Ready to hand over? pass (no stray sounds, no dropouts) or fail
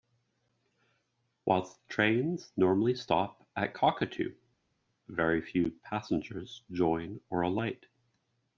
pass